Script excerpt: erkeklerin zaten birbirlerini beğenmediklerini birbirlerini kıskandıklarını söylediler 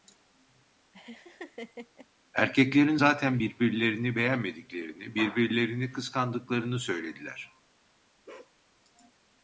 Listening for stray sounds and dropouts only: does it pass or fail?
fail